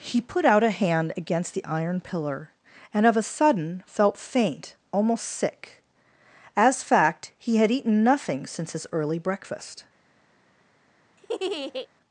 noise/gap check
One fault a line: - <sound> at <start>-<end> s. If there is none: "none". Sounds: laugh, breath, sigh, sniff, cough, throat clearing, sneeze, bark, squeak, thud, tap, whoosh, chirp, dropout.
- laugh at 11.2-11.9 s